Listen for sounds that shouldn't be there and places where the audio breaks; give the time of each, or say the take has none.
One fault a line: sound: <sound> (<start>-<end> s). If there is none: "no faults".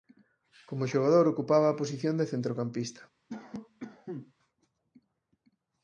sound: cough (3.3-4.3 s)